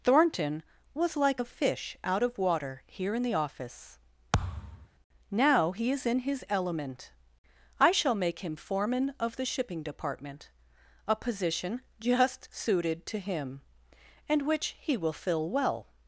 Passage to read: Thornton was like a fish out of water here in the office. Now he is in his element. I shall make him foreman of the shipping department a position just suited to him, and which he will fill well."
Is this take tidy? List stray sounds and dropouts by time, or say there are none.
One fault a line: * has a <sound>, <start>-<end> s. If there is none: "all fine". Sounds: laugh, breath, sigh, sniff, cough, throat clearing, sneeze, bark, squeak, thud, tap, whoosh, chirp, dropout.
* has a thud, 4.3-4.9 s